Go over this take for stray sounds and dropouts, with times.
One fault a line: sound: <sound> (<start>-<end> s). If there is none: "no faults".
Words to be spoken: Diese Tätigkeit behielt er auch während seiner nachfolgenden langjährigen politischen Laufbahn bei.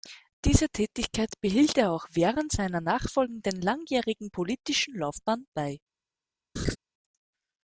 sound: laugh (6.6-6.8 s)